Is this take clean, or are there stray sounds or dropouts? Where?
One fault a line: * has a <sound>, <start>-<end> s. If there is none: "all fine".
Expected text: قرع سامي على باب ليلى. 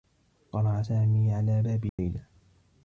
* has a dropout, 1.9-2.0 s